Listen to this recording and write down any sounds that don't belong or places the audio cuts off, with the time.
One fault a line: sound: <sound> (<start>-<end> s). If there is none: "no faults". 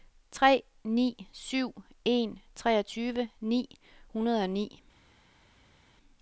no faults